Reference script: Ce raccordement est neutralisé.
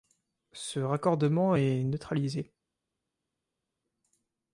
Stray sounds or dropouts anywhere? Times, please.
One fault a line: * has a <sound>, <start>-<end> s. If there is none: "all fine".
all fine